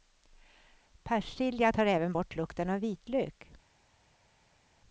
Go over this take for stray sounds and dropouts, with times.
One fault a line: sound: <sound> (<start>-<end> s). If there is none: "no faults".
no faults